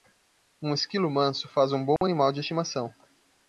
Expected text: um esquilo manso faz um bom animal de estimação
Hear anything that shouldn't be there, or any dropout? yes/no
yes